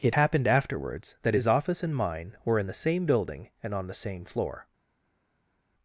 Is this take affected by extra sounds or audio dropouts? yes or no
no